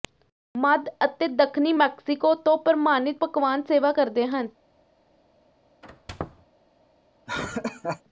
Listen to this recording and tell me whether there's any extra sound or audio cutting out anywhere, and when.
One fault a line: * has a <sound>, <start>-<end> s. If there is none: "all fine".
* has a squeak, 5.8-6.5 s
* has a laugh, 7.3-8.0 s